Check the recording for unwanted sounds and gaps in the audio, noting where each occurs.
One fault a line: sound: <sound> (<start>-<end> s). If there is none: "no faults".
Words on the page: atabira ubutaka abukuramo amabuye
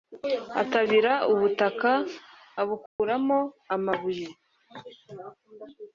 sound: dropout (2.9-3.0 s)